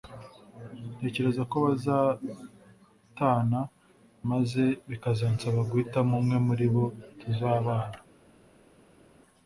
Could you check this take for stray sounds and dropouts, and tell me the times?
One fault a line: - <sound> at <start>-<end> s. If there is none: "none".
none